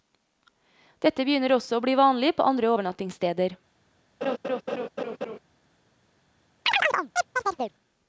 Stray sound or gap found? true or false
true